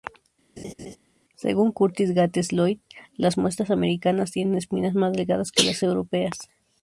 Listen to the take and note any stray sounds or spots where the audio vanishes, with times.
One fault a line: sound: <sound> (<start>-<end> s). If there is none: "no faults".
sound: laugh (0.6-1.0 s)